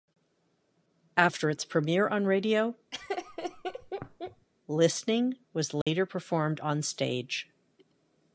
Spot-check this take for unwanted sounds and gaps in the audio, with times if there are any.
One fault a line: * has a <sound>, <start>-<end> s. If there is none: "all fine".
* has a laugh, 2.9-4.5 s
* has a dropout, 5.8-5.9 s